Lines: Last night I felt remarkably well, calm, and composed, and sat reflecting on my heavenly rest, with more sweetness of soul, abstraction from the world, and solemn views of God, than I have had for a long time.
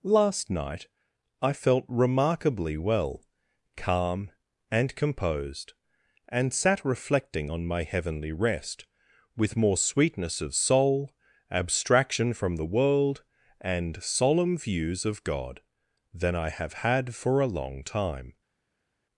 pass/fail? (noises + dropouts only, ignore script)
pass